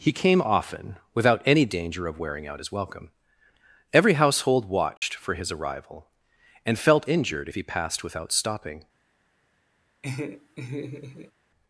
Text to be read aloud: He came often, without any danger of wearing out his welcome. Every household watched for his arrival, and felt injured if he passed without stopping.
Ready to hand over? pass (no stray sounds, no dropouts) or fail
fail